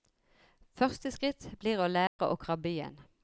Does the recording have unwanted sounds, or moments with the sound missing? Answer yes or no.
yes